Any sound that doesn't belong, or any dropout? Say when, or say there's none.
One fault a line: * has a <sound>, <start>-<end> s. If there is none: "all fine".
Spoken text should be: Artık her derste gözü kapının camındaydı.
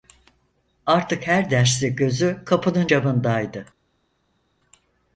all fine